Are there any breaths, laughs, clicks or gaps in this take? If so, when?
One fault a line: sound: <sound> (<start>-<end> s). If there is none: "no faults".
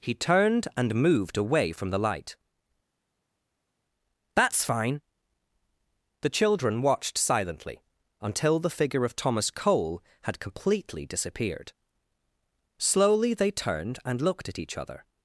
no faults